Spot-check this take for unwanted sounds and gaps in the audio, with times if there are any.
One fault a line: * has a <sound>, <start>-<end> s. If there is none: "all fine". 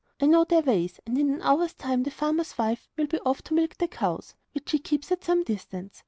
all fine